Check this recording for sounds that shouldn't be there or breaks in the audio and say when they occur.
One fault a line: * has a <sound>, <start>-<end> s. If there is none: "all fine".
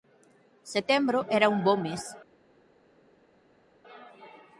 all fine